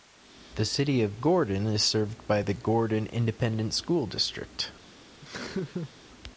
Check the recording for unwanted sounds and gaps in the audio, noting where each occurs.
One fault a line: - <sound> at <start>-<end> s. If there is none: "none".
- laugh at 5.2-5.9 s